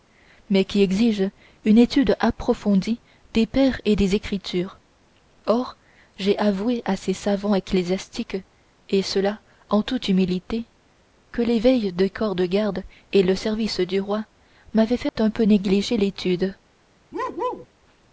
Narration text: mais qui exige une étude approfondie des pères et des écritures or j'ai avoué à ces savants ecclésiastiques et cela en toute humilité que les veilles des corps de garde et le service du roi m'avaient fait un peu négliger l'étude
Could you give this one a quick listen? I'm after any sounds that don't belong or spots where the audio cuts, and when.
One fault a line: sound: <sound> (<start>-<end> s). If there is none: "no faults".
sound: dropout (15.1-15.2 s)
sound: bark (17.1-17.7 s)